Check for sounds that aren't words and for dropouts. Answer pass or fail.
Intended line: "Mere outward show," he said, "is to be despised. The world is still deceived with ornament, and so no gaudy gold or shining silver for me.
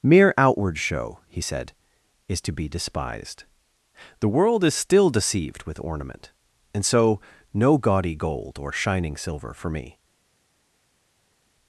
pass